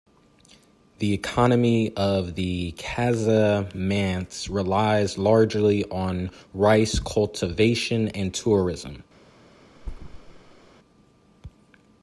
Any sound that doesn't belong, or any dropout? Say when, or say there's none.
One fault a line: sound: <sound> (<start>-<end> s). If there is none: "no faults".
sound: thud (9.8-10.7 s)